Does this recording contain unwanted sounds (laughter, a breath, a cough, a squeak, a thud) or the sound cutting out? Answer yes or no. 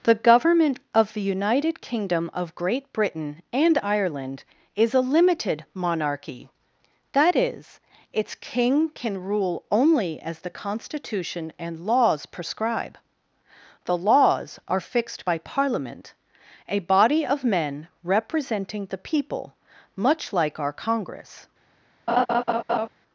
yes